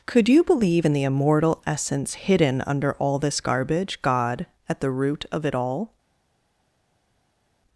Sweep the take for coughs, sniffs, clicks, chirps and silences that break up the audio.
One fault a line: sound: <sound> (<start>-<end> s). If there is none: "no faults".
no faults